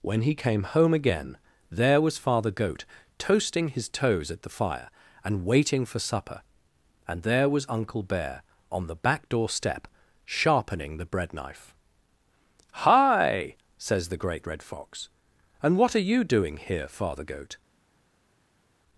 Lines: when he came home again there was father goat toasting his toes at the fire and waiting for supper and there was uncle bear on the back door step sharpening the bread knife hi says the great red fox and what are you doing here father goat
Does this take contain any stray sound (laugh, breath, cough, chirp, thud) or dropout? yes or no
no